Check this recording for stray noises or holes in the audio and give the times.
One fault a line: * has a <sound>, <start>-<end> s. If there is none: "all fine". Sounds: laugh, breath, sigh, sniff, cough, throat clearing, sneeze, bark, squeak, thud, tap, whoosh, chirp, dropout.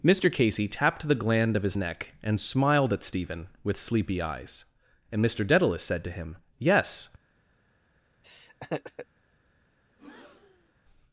* has a laugh, 8.2-9.1 s
* has a breath, 9.9-10.7 s